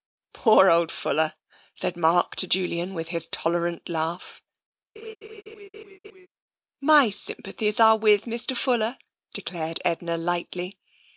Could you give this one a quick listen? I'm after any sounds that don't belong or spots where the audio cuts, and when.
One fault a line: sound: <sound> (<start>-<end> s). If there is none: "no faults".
sound: laugh (5.0-6.3 s)